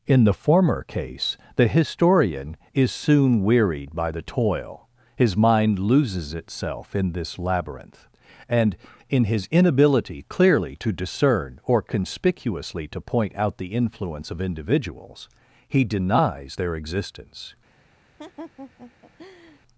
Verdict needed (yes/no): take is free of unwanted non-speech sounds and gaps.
no